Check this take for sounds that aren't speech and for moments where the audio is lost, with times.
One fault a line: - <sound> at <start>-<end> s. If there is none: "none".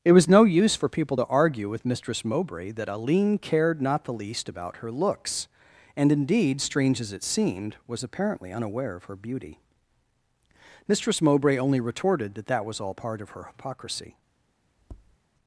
- tap at 14.8-15.2 s